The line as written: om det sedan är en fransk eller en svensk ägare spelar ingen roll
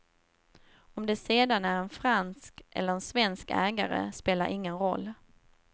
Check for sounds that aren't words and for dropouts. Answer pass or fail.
pass